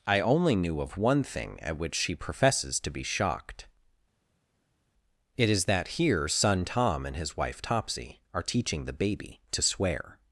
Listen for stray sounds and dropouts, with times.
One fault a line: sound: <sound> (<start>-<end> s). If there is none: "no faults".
no faults